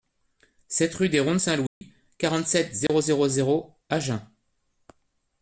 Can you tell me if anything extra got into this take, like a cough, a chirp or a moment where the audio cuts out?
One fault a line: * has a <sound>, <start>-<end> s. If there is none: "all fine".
* has a dropout, 1.7-1.8 s
* has a dropout, 2.9-2.9 s